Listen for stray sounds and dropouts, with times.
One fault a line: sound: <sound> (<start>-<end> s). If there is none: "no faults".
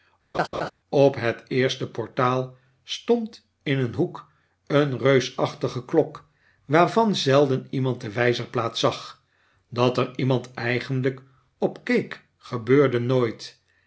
sound: laugh (0.3-0.7 s)